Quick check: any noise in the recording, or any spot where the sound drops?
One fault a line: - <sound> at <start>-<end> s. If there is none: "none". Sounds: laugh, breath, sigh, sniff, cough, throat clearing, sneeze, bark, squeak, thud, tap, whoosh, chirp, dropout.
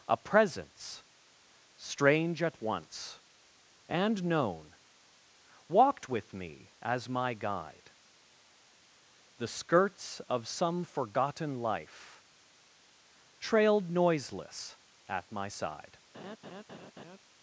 - laugh at 16.1-17.2 s